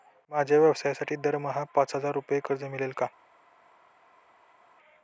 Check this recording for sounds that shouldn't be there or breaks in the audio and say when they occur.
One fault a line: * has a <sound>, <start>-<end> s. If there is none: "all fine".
all fine